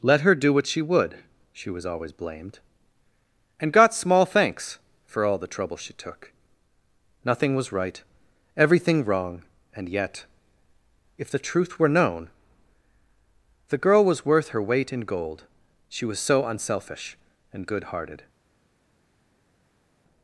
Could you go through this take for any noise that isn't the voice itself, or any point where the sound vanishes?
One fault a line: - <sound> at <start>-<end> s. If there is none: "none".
none